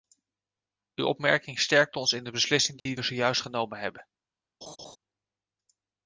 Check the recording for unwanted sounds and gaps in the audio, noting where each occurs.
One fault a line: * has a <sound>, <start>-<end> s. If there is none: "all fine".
* has a dropout, 2.8-2.9 s
* has a laugh, 4.6-5.0 s